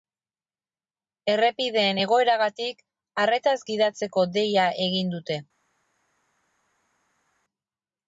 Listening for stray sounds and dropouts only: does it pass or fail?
pass